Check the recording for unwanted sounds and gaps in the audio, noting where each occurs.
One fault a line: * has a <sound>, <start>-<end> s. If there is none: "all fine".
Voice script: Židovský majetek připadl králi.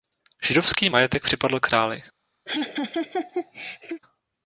* has a laugh, 2.5-4.0 s